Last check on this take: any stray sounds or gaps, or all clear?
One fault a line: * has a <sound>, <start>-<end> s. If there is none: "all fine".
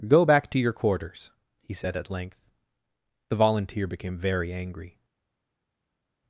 all fine